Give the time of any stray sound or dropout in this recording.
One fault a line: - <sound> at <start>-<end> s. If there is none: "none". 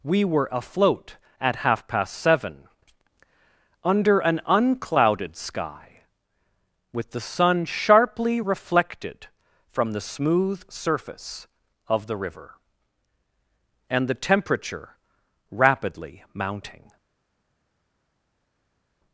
none